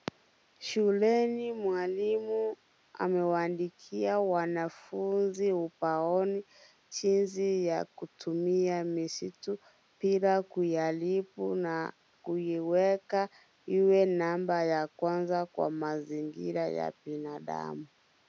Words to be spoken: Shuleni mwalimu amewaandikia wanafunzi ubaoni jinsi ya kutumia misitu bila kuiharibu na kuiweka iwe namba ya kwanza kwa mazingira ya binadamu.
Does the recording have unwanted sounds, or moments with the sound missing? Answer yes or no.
no